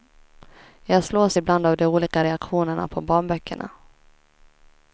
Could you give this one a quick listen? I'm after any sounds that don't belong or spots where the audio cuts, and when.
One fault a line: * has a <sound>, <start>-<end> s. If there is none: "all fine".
all fine